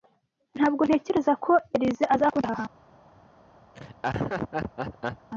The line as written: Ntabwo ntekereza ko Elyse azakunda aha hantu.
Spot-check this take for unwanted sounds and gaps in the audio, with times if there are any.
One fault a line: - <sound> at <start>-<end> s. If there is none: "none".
- laugh at 3.7-5.3 s